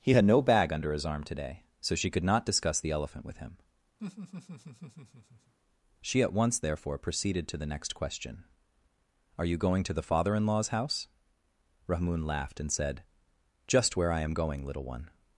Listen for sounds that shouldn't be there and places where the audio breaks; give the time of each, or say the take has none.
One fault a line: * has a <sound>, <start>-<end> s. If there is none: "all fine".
* has a laugh, 4.0-5.5 s